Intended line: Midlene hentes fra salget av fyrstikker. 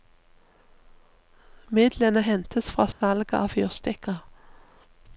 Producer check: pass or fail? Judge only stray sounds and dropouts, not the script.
fail